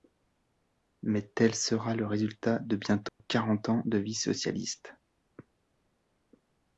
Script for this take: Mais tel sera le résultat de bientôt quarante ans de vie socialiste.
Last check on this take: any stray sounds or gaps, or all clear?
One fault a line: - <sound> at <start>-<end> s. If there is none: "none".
- dropout at 3.1-3.2 s